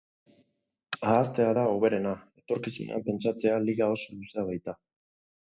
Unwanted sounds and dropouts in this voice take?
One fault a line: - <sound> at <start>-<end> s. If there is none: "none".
none